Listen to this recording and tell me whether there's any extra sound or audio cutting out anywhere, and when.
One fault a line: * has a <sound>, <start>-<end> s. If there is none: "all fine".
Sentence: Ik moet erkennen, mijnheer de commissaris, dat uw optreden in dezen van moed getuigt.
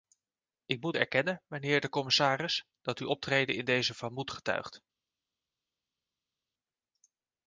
all fine